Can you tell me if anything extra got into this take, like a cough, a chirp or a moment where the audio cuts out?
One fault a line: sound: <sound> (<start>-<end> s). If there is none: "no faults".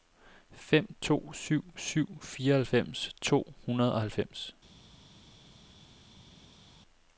no faults